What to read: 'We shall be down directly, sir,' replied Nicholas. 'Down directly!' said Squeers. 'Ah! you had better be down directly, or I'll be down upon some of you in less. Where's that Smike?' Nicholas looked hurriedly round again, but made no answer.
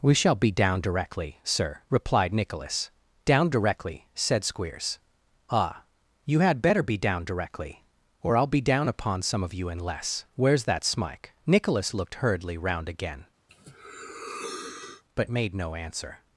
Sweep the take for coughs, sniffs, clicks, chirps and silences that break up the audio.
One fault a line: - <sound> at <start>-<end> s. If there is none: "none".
- sneeze at 13.5-15.0 s